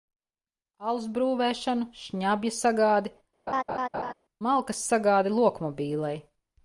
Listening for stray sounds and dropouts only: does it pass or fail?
fail